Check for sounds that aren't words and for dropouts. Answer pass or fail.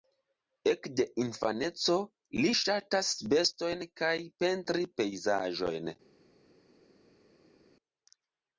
pass